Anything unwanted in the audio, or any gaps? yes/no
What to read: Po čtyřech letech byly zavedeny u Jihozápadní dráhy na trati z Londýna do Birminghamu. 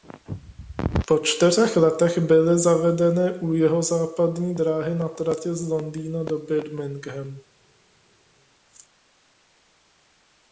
no